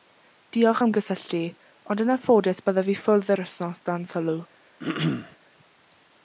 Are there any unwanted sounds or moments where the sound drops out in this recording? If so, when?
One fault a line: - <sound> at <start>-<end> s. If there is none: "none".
- throat clearing at 4.8-5.4 s